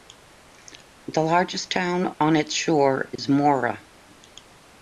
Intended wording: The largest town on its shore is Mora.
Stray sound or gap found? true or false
true